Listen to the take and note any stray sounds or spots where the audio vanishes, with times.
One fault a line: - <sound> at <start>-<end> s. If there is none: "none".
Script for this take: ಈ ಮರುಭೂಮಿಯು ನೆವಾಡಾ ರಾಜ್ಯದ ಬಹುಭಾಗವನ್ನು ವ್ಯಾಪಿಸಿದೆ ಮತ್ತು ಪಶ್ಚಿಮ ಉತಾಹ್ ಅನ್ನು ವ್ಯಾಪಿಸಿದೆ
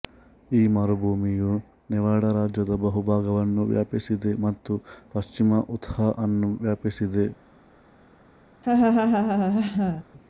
- laugh at 8.6-10.0 s